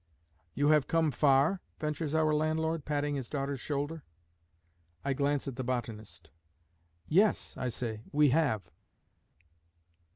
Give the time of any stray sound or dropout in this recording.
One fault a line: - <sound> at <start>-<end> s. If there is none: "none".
none